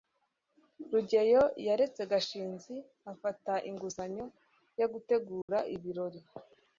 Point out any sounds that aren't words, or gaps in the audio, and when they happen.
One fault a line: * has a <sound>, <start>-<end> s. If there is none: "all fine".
* has a dropout, 5.4-5.5 s